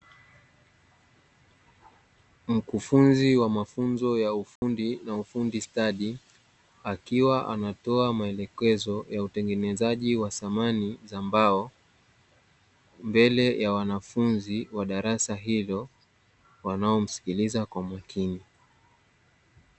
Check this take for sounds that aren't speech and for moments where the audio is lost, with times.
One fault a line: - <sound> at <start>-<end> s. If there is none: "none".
- dropout at 4.6-4.6 s